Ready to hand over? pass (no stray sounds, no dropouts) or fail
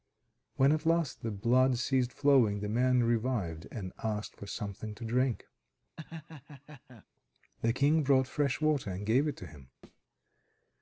fail